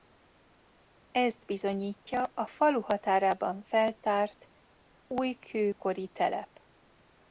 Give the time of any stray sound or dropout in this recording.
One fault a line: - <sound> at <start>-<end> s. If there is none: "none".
none